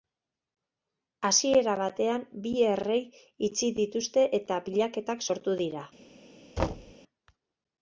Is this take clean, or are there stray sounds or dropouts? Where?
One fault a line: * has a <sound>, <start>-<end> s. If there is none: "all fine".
* has a thud, 6.6-6.9 s